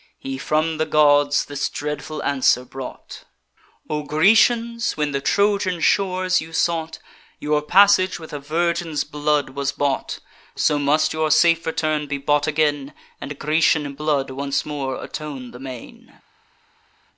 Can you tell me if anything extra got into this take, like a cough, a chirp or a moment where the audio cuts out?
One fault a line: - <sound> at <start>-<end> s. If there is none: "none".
none